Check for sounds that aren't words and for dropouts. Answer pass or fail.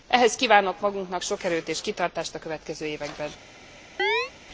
fail